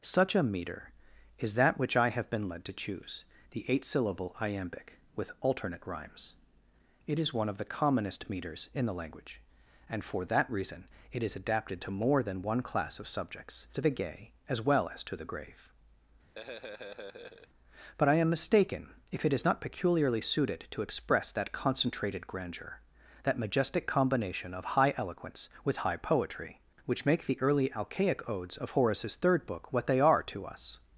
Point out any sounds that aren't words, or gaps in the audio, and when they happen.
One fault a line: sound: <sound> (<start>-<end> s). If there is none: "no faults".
sound: laugh (16.4-17.5 s)